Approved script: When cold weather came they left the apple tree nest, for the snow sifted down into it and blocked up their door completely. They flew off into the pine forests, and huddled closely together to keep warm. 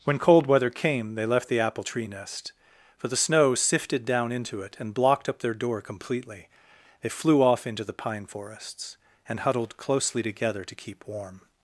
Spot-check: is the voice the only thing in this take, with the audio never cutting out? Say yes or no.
yes